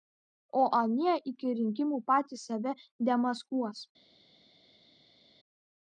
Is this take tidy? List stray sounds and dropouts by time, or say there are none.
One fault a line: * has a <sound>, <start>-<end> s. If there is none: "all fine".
all fine